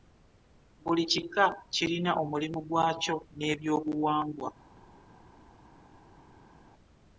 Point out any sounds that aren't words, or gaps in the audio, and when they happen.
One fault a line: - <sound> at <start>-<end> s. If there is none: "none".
none